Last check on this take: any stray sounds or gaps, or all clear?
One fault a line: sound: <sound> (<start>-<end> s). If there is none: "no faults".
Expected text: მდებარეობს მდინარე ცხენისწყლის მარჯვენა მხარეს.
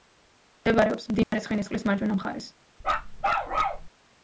sound: dropout (1.2-1.3 s)
sound: bark (2.8-3.9 s)